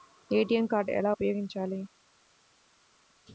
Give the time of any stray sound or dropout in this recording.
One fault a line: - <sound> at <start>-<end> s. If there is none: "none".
none